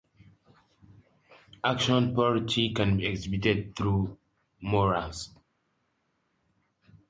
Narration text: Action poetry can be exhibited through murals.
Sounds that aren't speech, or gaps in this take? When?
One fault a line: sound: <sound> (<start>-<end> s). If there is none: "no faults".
no faults